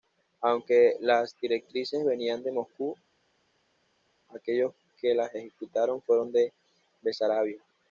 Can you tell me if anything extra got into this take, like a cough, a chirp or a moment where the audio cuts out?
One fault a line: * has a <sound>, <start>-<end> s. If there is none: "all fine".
all fine